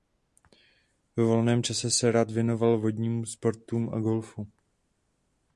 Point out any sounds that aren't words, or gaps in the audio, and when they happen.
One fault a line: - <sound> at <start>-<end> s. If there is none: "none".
none